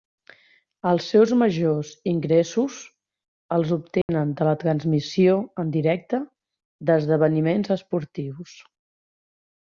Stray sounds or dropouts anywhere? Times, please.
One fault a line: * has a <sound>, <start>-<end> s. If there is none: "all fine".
* has a dropout, 4.0-4.1 s